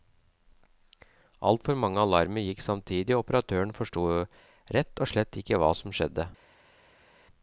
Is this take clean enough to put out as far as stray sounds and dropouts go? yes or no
yes